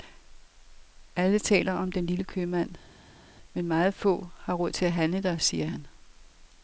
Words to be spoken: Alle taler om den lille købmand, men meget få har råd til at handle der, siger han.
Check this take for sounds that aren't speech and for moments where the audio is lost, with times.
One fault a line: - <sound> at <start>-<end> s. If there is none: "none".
none